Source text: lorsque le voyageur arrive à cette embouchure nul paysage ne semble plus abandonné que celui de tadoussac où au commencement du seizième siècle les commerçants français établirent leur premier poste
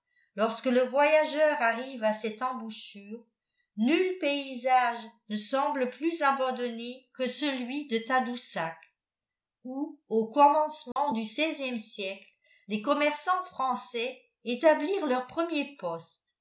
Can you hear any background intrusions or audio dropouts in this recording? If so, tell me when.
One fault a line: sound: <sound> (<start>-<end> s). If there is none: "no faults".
sound: dropout (10.9-11.0 s)